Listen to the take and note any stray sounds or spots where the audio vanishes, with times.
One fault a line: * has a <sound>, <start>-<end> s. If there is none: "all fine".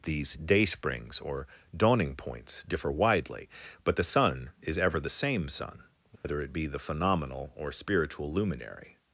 * has a dropout, 6.2-6.2 s